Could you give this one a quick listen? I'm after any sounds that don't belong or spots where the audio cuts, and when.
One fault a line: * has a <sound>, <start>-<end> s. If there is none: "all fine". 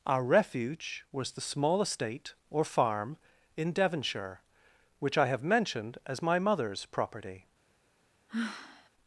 * has a sigh, 8.3-8.9 s